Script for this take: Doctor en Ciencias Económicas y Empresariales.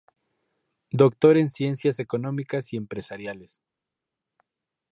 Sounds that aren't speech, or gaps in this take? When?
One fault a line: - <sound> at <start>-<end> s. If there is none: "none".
none